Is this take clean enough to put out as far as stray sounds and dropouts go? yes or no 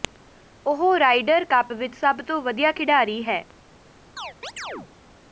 no